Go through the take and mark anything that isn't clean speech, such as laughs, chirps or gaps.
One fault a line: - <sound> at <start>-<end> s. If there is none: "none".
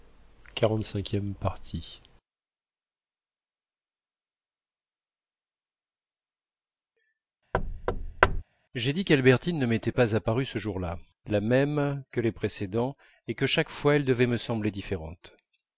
- thud at 7.5-8.4 s